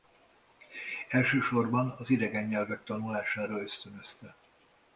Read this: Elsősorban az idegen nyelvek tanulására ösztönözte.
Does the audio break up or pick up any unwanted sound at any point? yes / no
no